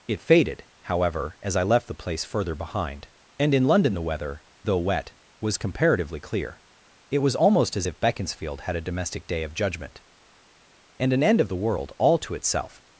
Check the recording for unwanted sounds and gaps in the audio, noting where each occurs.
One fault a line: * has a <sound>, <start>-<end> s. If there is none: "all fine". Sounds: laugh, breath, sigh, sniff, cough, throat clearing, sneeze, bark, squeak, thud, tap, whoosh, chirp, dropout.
all fine